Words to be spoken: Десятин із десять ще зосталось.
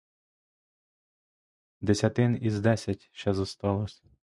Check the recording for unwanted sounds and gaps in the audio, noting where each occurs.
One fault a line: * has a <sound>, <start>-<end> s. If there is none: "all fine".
all fine